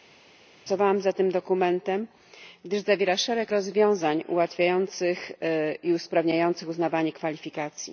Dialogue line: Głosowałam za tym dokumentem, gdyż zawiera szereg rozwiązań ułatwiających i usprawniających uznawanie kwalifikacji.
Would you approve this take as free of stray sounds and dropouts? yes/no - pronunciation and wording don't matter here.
yes